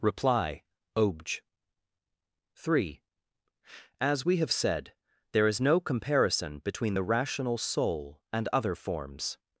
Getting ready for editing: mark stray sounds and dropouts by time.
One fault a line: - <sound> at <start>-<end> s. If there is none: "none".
none